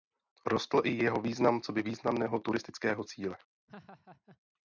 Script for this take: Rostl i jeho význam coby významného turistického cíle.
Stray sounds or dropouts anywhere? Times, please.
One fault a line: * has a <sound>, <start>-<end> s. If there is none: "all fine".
* has a laugh, 3.7-4.4 s